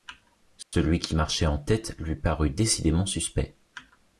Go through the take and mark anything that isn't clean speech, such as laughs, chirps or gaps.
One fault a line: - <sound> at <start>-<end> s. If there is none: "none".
- dropout at 0.6-0.7 s